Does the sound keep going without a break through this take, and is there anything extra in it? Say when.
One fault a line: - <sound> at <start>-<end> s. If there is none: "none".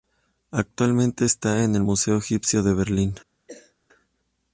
- cough at 3.5-3.8 s